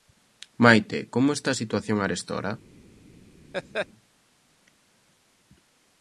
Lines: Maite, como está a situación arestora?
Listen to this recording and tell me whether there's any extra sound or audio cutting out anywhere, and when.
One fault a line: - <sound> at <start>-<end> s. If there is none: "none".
- laugh at 3.5-3.9 s